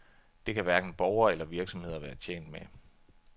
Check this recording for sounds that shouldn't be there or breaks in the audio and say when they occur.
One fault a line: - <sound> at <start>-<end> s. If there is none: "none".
none